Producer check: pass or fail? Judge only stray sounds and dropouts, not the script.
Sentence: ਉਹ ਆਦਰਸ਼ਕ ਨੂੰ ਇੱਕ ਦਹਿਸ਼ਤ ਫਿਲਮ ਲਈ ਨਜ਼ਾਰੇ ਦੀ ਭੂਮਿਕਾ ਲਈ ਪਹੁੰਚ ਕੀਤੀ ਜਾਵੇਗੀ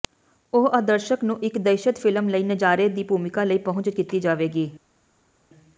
pass